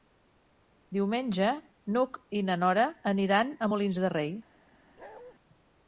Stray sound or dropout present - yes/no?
yes